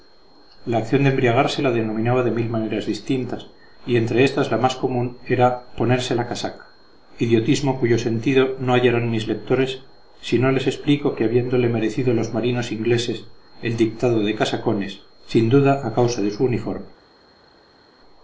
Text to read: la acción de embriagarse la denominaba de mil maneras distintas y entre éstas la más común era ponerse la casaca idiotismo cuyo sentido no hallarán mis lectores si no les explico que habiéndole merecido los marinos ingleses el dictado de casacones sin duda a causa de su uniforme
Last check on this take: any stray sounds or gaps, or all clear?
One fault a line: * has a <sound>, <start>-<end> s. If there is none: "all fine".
all fine